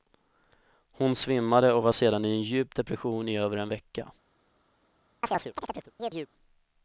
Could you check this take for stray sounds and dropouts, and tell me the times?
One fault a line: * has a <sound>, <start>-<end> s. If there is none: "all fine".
* has a chirp, 5.2-6.3 s